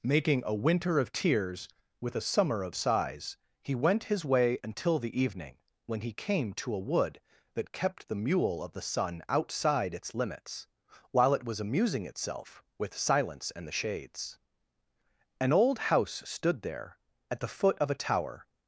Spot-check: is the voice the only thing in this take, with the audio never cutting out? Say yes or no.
yes